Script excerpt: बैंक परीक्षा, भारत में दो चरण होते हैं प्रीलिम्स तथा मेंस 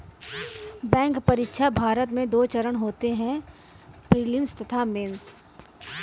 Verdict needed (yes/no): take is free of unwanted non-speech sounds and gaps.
yes